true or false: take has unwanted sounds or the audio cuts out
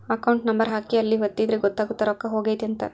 false